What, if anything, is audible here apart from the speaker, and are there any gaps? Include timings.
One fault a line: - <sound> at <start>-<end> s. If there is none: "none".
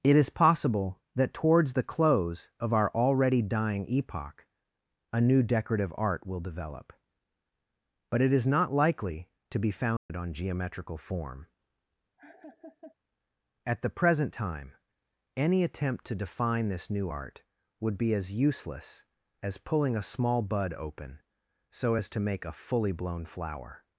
- dropout at 10.0-10.1 s
- laugh at 12.2-13.0 s